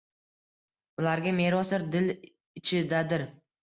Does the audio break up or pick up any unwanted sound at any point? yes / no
no